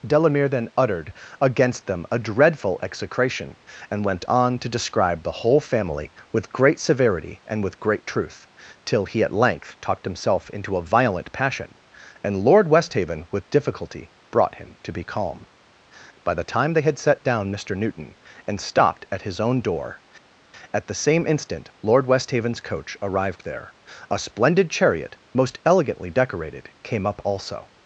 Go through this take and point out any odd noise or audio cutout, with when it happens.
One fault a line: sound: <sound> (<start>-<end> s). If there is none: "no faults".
no faults